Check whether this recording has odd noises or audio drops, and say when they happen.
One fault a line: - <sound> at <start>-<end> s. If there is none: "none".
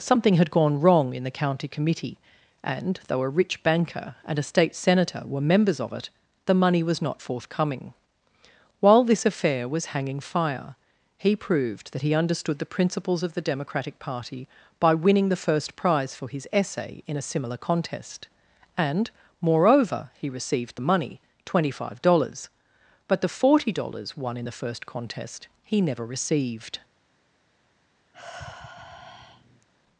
- sigh at 28.1-29.7 s